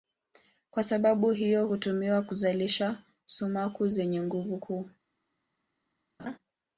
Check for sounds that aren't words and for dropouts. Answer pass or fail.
fail